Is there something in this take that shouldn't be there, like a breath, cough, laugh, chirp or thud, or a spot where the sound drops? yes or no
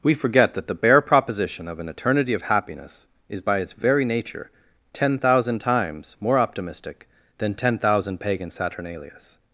no